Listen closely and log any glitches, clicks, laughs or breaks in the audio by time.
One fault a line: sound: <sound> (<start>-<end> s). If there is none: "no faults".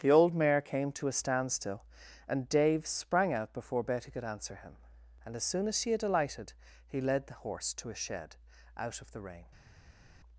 no faults